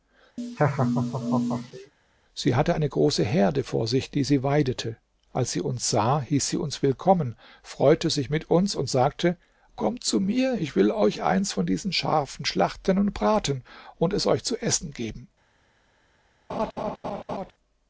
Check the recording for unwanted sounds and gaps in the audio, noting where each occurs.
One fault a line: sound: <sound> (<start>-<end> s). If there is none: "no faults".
sound: laugh (0.4-1.9 s)
sound: laugh (16.5-17.5 s)